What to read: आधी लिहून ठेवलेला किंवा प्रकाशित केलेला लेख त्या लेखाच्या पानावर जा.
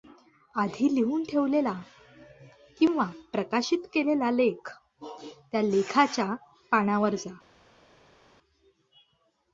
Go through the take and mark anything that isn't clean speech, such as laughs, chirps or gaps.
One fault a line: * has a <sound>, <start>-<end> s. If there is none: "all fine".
all fine